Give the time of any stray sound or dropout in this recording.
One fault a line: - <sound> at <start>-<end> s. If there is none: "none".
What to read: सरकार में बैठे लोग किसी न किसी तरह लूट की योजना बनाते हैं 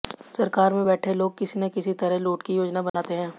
- dropout at 2.9-2.9 s